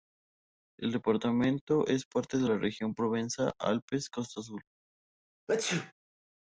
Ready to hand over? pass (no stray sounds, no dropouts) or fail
fail